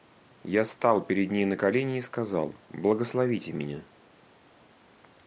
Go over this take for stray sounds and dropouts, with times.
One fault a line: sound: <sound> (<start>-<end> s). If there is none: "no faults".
no faults